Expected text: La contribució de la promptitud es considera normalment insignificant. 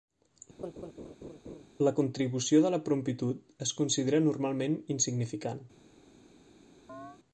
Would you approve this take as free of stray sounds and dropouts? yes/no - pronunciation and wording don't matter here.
no